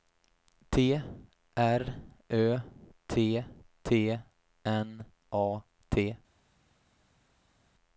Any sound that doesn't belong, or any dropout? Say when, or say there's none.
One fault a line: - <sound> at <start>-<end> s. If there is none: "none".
none